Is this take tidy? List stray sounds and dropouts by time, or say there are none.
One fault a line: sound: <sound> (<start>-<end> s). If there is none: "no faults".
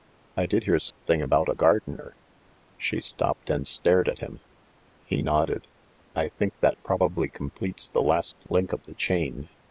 sound: dropout (0.9-1.0 s)